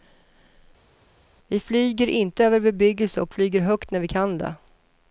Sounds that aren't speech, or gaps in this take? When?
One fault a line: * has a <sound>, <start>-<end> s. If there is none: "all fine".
all fine